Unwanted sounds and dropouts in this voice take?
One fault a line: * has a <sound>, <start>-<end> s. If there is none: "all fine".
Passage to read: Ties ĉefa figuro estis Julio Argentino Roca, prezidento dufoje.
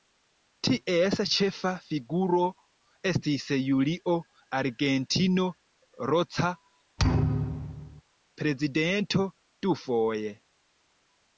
* has a thud, 7.0-8.0 s